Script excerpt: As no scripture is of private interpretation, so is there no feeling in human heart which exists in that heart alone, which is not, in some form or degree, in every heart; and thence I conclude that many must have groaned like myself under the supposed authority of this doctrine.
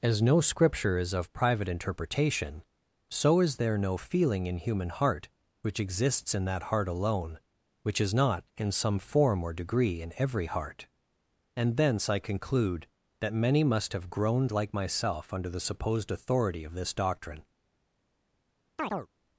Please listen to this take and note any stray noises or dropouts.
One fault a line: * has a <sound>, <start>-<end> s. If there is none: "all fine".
* has a chirp, 18.8-19.1 s